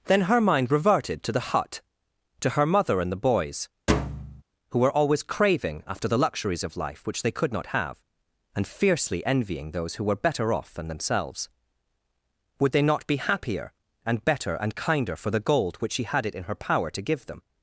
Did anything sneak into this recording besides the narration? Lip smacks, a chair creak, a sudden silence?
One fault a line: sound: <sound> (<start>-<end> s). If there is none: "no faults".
sound: thud (3.9-4.4 s)